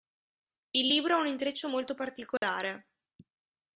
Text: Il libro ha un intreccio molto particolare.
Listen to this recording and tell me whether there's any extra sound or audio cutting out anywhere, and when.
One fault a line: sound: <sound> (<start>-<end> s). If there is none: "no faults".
sound: dropout (2.4-2.4 s)